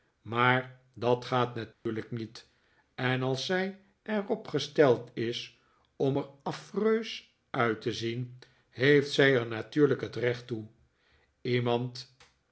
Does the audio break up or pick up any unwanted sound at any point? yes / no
yes